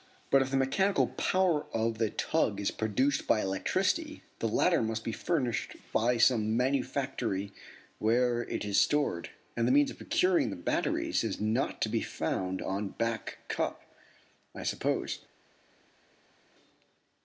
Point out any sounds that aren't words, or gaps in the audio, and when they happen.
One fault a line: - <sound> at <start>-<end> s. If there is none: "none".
none